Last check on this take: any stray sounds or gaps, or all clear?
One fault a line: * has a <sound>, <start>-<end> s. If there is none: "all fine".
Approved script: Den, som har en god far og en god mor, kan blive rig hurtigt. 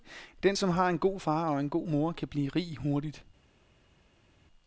all fine